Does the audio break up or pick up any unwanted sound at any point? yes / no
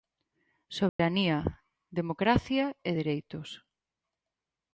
yes